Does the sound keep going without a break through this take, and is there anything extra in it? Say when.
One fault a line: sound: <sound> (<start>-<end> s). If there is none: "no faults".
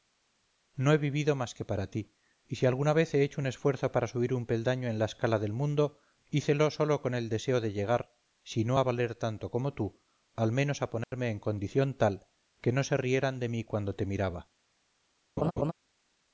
sound: dropout (11.0-11.1 s)
sound: laugh (15.4-15.7 s)